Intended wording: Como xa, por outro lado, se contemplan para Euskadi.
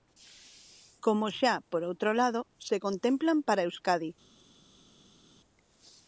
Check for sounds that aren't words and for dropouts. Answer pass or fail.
pass